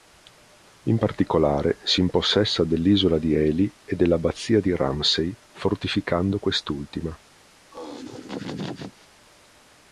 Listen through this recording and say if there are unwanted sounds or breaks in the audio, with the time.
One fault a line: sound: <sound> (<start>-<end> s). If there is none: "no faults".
sound: laugh (7.7-9.1 s)